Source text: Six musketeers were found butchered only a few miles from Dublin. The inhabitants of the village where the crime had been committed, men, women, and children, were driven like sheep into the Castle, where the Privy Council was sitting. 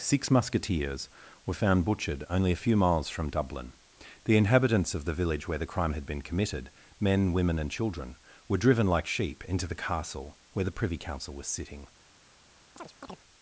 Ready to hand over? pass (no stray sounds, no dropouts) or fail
fail